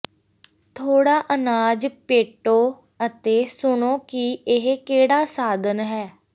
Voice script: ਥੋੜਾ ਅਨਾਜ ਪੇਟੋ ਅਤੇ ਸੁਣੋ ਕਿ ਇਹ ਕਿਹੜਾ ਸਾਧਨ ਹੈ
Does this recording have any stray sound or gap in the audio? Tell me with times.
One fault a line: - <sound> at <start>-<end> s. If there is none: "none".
none